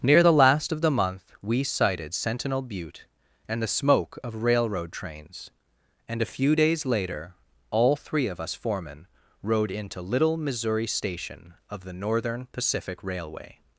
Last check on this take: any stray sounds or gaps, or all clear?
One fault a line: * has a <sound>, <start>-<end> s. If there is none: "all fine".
all fine